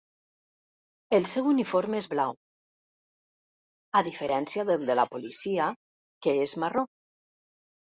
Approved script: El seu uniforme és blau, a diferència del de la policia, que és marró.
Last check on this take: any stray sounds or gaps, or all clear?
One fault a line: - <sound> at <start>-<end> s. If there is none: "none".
none